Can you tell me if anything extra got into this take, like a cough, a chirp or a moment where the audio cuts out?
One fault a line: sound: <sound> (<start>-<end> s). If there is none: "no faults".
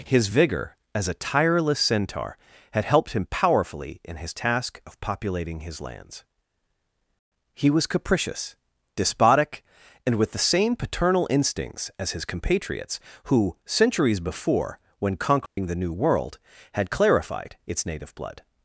sound: dropout (15.5-15.6 s)